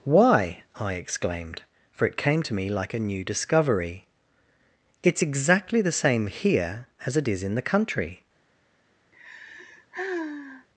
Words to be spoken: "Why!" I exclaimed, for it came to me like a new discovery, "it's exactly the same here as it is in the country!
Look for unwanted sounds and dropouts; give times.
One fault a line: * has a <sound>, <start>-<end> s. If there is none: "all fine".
* has a sigh, 9.1-10.7 s